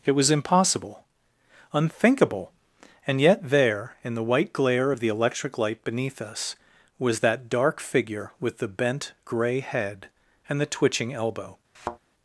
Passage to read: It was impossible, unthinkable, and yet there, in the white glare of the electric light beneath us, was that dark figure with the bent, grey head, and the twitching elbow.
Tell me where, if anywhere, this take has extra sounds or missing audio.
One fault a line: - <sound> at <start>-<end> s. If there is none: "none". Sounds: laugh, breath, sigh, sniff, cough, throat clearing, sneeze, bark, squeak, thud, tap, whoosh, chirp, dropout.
- thud at 11.7-12.0 s